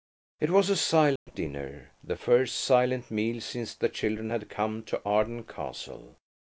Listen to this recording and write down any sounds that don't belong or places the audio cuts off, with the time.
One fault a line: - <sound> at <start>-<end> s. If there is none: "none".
- dropout at 1.2-1.3 s